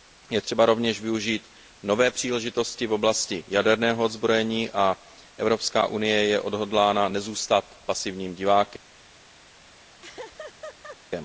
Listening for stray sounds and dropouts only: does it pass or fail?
fail